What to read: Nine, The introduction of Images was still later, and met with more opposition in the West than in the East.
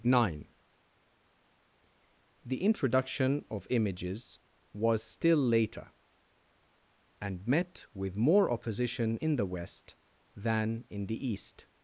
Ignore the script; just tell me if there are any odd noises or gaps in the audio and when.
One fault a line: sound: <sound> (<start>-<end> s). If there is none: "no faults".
no faults